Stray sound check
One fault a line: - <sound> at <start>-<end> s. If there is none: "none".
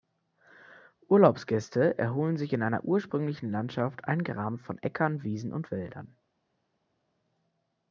none